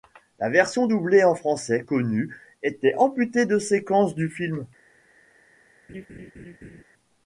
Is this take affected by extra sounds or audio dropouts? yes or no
yes